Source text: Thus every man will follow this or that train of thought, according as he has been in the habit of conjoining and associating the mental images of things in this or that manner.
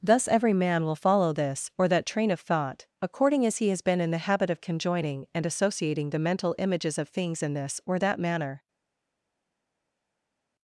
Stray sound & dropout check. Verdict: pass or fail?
pass